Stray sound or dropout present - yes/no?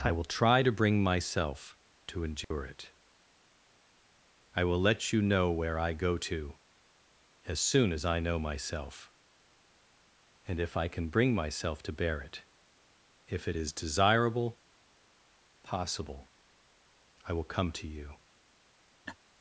yes